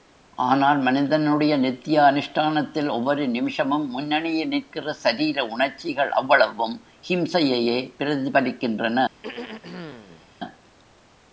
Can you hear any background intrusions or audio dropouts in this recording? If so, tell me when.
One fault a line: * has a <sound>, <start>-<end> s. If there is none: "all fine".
* has a throat clearing, 9.2-10.3 s